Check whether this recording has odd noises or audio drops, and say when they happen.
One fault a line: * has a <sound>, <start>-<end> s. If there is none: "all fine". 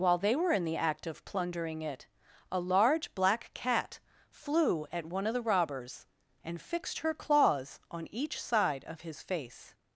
all fine